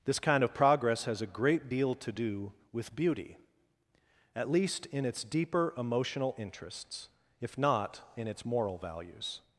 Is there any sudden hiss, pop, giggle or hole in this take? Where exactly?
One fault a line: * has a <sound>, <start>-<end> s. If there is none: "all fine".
all fine